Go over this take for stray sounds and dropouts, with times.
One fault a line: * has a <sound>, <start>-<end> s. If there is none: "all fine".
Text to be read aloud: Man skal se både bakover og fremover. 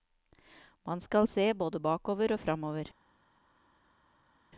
all fine